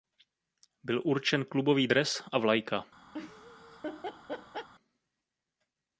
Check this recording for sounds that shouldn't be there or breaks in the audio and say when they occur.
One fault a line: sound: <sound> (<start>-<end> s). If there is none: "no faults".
sound: laugh (3.1-4.7 s)